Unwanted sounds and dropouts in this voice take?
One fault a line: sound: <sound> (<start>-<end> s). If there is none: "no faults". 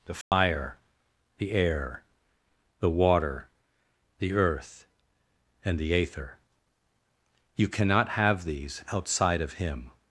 sound: dropout (0.2-0.3 s)